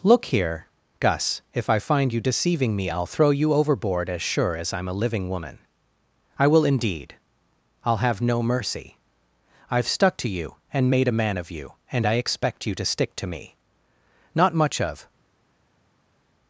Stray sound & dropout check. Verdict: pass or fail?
pass